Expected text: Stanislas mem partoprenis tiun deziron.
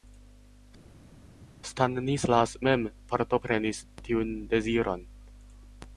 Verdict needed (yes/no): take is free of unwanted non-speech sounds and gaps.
yes